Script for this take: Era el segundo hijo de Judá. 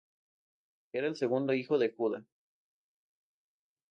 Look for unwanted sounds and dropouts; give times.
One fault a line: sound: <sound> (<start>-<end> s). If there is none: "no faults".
no faults